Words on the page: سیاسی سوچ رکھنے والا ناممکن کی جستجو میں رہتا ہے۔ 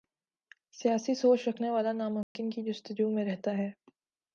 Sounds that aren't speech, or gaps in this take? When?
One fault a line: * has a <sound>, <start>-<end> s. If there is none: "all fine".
* has a dropout, 2.2-2.4 s